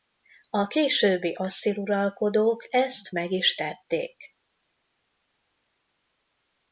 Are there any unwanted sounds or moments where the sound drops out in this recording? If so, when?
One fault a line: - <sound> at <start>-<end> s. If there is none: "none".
none